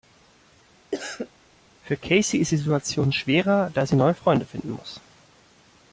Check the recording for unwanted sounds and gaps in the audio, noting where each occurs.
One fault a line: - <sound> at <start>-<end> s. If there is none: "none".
- cough at 0.9-1.3 s